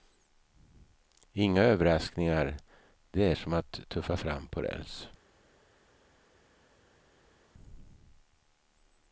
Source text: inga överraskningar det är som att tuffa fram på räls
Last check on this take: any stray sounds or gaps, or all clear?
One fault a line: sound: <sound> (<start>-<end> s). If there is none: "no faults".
no faults